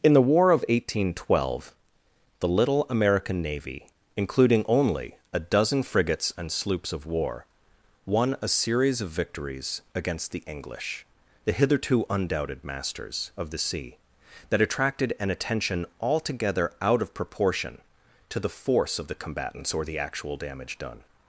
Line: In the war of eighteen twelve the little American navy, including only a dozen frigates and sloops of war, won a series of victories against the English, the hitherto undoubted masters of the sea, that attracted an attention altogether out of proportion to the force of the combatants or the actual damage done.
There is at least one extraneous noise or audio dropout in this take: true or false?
false